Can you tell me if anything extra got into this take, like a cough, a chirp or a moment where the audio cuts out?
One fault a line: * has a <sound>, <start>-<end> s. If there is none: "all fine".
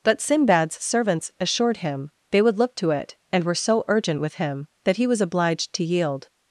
all fine